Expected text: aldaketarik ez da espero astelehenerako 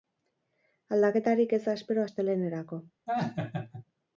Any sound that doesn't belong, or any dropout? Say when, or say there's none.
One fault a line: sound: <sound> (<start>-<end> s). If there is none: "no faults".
sound: laugh (3.1-3.8 s)